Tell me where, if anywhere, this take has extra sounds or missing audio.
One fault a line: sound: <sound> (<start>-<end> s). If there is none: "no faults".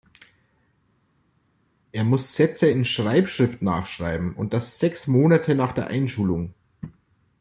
no faults